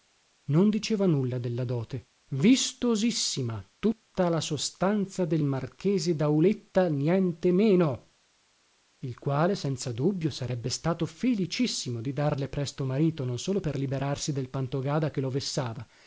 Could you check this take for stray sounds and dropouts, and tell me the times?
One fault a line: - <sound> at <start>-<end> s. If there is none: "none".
none